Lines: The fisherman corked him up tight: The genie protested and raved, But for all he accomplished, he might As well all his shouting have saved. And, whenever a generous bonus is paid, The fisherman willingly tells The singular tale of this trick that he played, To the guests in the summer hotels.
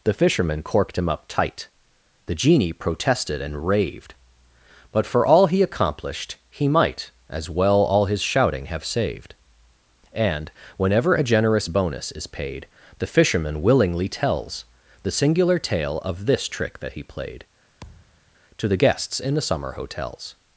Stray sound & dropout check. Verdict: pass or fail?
fail